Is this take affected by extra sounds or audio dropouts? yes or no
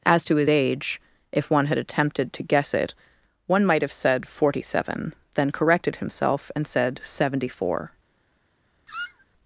yes